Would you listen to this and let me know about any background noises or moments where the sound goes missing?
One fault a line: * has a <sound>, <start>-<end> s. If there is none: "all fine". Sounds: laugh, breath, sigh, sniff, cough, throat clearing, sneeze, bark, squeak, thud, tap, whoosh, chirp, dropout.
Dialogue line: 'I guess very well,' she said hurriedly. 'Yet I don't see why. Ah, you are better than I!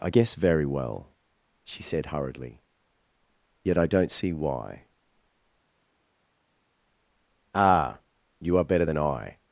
all fine